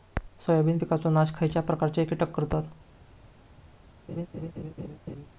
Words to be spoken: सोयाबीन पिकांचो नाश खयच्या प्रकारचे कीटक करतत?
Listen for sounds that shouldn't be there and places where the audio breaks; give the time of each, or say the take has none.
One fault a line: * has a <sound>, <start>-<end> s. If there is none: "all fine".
* has a laugh, 4.1-5.3 s